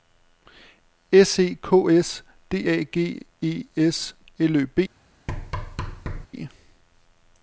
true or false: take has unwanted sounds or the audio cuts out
true